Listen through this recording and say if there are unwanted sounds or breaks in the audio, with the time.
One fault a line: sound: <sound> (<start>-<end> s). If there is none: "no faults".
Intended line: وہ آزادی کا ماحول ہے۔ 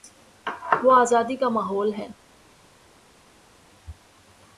no faults